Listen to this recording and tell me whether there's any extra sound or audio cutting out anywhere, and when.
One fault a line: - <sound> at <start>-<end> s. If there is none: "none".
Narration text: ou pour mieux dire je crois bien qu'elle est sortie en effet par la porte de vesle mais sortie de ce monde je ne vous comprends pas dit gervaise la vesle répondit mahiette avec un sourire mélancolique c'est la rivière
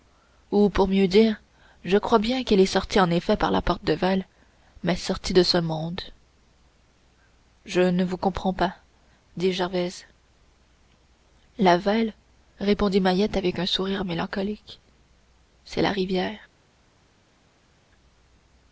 none